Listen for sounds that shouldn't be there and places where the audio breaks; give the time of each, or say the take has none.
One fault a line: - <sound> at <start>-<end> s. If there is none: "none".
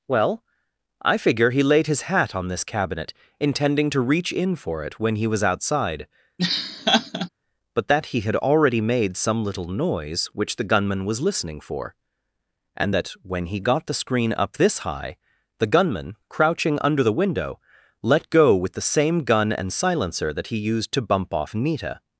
- laugh at 6.4-7.3 s